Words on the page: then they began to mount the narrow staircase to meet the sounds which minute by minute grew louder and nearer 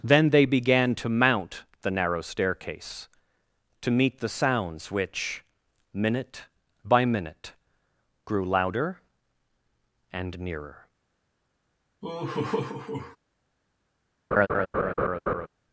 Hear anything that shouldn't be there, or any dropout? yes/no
yes